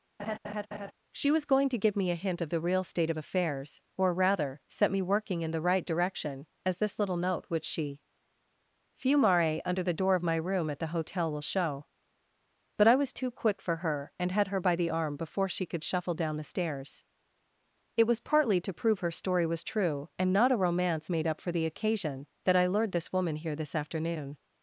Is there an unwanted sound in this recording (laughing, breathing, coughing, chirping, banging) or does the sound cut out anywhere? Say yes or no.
yes